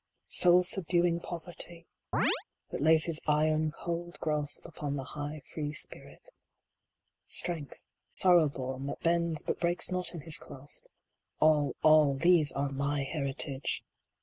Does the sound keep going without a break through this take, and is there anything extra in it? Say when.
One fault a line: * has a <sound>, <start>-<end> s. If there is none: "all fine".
* has a chirp, 2.1-2.4 s
* has a dropout, 8.1-8.2 s